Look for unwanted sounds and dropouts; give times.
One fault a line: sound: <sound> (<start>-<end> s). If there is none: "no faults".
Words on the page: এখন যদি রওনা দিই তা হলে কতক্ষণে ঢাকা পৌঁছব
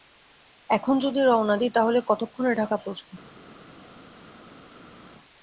no faults